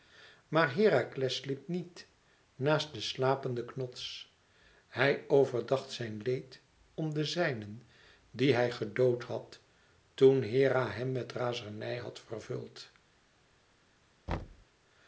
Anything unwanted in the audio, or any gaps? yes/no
yes